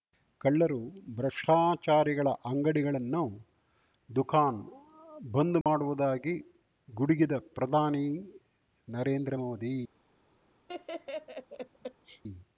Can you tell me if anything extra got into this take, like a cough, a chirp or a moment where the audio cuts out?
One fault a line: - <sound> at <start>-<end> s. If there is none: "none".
- dropout at 5.6-5.7 s
- laugh at 10.7-12.2 s